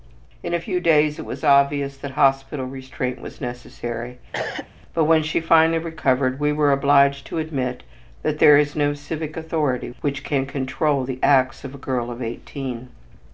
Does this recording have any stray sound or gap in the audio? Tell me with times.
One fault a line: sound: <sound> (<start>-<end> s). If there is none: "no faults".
sound: cough (4.3-4.7 s)